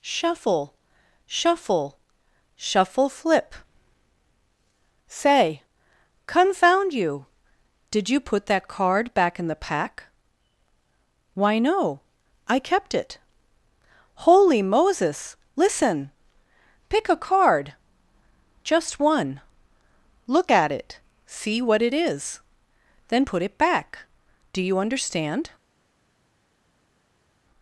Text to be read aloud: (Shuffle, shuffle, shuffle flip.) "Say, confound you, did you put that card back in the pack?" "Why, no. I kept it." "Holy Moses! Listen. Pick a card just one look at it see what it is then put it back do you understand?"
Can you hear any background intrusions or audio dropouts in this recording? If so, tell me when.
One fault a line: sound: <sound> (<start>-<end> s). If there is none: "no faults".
no faults